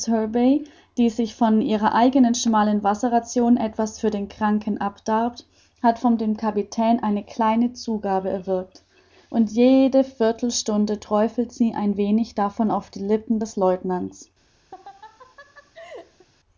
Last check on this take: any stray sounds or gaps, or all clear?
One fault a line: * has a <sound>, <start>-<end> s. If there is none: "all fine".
* has a laugh, 14.7-16.3 s